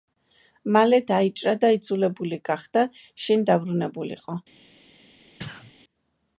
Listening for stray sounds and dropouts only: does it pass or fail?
fail